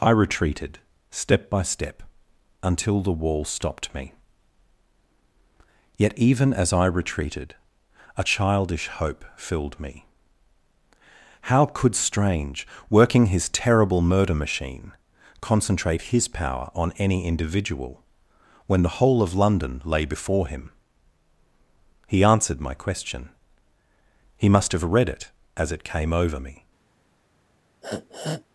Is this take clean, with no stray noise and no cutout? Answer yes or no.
no